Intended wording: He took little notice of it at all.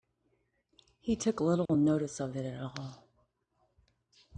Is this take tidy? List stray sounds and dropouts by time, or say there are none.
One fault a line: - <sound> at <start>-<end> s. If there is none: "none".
- dropout at 1.7-1.7 s